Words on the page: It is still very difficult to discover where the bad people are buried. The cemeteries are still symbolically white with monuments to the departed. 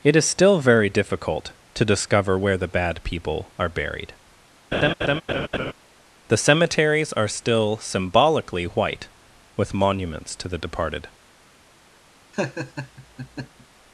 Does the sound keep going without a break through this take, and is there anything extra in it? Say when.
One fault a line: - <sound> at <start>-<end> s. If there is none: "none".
- laugh at 4.7-5.7 s
- laugh at 12.3-13.7 s